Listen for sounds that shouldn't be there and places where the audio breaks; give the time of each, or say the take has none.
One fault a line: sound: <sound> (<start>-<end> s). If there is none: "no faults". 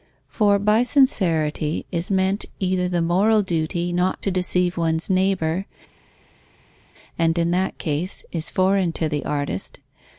no faults